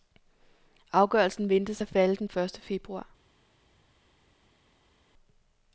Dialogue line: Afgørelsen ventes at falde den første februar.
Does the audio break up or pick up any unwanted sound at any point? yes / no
no